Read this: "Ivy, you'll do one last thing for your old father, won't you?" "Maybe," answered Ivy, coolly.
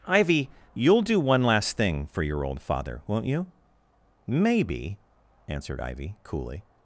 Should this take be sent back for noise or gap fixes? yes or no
no